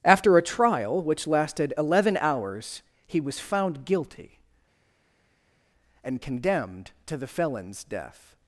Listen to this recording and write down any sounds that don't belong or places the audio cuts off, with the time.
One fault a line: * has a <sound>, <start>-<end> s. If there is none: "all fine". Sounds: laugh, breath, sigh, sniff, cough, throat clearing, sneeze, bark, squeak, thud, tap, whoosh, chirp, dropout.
all fine